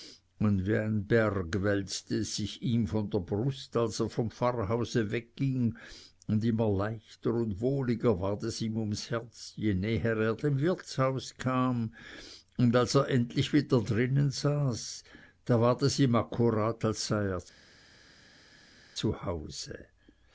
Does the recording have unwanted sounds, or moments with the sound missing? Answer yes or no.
no